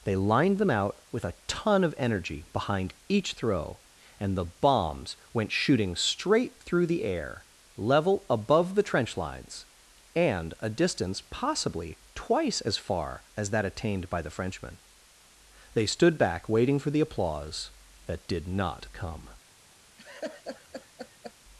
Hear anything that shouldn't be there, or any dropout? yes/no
yes